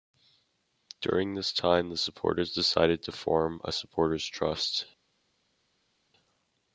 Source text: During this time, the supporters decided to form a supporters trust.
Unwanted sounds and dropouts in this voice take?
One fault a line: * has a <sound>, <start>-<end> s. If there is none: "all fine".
all fine